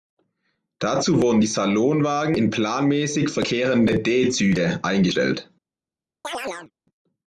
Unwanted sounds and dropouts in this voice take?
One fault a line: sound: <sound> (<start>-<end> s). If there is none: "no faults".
sound: chirp (6.2-6.7 s)